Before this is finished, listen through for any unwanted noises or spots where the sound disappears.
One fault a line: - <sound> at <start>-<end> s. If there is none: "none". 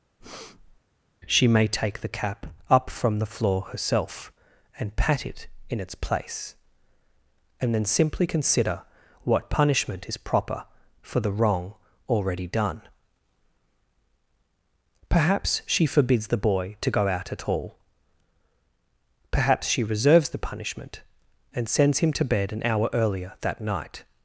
- breath at 0.2-0.8 s